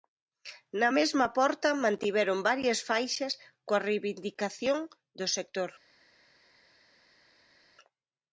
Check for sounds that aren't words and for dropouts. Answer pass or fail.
pass